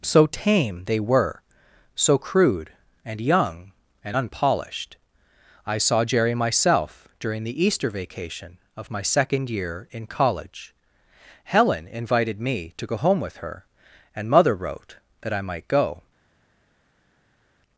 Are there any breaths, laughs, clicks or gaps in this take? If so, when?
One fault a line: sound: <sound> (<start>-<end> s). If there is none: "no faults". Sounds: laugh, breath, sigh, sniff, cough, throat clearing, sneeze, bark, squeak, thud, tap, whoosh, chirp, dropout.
no faults